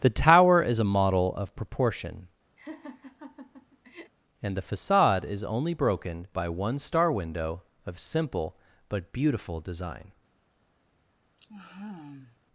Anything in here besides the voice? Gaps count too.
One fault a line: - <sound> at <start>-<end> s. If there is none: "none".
- laugh at 2.6-4.1 s
- sigh at 11.4-12.4 s